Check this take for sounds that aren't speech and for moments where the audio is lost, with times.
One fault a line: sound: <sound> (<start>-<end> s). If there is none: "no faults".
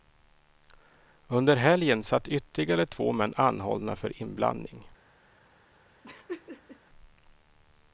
sound: laugh (6.0-6.8 s)